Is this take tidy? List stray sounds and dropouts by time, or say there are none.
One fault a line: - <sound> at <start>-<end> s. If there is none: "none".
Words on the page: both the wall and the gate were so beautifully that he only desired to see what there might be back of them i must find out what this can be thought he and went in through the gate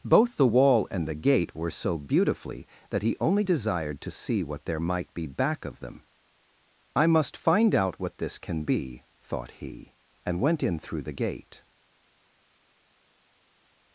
none